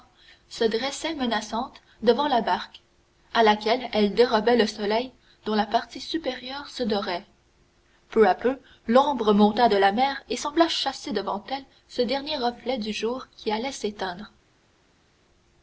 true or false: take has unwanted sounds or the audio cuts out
false